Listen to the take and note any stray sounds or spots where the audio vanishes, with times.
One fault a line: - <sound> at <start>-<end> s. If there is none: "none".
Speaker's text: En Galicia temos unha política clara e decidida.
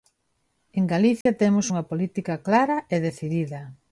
- dropout at 1.2-1.3 s